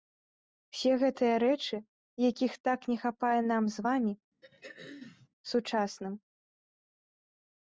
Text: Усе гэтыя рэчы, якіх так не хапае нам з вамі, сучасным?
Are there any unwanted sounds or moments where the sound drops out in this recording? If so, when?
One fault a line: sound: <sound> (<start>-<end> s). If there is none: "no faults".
sound: throat clearing (4.4-5.3 s)